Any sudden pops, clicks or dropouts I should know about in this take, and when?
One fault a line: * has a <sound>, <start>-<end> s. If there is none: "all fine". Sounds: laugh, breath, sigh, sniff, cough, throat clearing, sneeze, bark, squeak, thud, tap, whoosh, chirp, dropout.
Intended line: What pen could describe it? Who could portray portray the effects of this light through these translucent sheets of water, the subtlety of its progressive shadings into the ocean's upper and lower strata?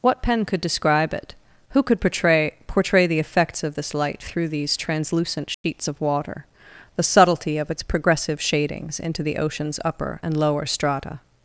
* has a dropout, 5.5-5.6 s